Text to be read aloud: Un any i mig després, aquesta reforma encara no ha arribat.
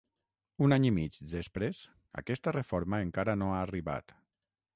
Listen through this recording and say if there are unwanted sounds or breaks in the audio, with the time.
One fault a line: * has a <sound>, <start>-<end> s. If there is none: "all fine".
all fine